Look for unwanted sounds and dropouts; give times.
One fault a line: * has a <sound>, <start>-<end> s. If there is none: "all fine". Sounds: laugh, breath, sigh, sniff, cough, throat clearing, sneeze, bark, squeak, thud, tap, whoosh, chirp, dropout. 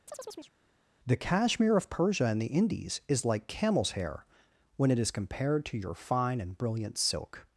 * has a chirp, 0.1-0.6 s